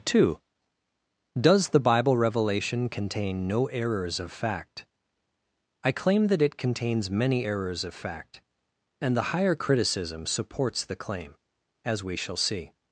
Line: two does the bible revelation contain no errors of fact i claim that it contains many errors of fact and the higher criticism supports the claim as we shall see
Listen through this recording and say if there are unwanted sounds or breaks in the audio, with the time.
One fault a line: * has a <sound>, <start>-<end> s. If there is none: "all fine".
all fine